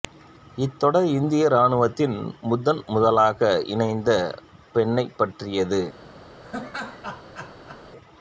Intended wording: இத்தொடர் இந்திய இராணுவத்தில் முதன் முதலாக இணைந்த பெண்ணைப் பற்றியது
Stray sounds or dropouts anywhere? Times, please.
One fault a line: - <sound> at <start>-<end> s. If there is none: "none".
- laugh at 6.4-7.8 s